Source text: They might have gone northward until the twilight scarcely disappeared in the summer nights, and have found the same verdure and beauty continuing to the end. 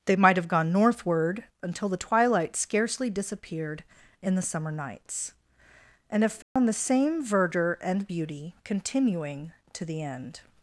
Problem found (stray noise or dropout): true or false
true